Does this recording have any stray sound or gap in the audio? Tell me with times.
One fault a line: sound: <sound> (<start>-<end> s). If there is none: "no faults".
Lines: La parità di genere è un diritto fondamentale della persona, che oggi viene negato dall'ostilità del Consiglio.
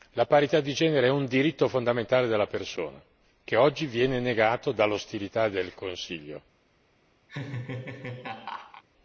sound: laugh (7.3-8.8 s)